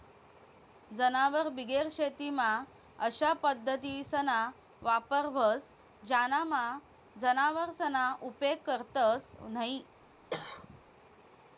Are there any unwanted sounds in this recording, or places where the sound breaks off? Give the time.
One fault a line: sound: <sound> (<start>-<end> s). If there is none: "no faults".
sound: cough (10.3-10.8 s)